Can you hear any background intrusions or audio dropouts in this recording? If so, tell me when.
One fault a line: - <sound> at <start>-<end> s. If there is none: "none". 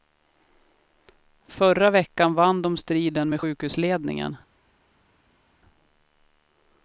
none